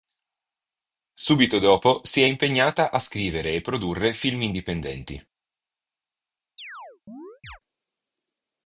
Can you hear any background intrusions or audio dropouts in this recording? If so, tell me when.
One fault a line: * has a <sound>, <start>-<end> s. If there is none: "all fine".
* has a chirp, 6.6-7.6 s